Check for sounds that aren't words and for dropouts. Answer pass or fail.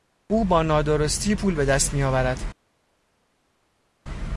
pass